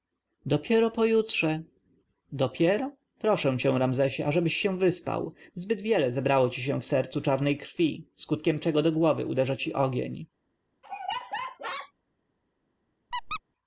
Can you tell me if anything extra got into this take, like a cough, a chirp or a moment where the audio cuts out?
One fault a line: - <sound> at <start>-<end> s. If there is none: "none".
- laugh at 10.8-11.9 s
- squeak at 13.1-13.4 s